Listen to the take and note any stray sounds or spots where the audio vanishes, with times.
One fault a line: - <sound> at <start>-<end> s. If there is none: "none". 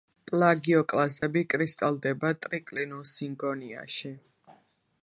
- dropout at 1.2-1.2 s